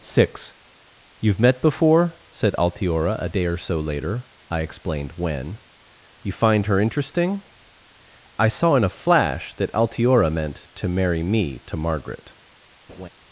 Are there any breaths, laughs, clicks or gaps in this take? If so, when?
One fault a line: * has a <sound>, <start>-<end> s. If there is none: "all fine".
* has a laugh, 12.9-13.1 s